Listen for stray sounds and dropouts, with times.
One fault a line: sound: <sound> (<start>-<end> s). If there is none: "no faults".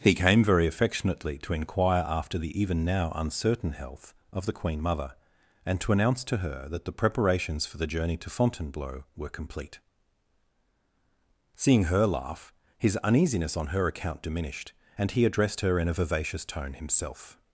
no faults